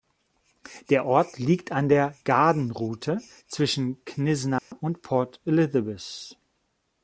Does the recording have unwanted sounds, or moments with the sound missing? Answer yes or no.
yes